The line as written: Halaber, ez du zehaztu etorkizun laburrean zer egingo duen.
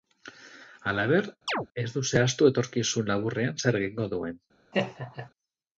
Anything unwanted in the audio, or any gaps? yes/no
yes